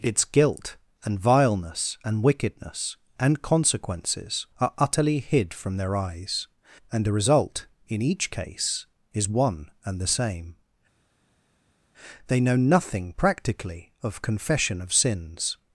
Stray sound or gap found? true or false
false